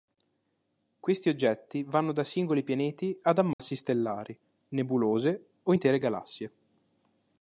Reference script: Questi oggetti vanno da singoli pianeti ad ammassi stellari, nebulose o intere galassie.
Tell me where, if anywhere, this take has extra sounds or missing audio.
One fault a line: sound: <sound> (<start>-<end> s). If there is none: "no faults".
sound: dropout (3.5-3.6 s)